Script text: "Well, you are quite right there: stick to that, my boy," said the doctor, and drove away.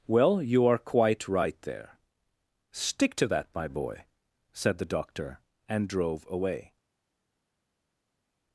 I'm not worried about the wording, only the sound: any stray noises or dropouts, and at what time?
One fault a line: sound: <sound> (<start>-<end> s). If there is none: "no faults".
no faults